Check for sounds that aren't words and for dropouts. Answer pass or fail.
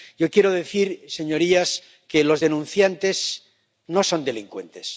pass